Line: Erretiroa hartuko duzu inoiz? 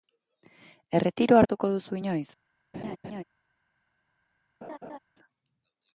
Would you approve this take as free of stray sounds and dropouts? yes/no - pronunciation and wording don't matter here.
no